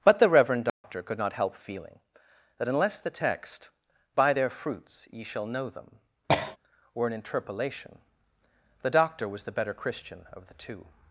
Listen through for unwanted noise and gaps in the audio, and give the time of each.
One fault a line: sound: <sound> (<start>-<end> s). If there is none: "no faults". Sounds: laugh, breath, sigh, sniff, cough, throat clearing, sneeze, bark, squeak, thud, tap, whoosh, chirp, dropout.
sound: dropout (0.7-0.8 s)
sound: cough (6.3-6.6 s)